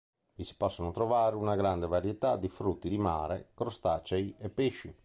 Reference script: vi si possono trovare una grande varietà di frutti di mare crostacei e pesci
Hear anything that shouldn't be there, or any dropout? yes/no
no